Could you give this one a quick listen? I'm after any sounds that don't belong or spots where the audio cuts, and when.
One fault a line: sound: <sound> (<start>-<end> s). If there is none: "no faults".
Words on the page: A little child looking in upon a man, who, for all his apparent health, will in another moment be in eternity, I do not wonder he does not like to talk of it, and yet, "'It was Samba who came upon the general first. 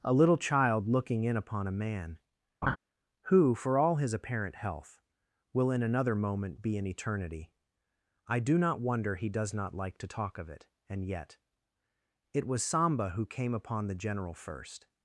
sound: laugh (2.6-2.8 s)